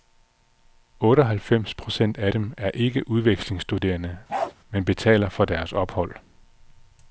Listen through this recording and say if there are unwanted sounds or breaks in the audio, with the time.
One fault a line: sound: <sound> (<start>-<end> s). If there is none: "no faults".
sound: bark (4.3-4.5 s)